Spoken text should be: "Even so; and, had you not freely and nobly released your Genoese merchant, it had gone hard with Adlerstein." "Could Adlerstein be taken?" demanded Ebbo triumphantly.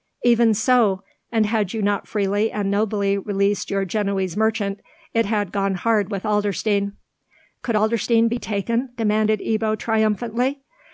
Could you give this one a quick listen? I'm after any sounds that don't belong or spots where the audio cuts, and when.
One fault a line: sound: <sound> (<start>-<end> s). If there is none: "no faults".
no faults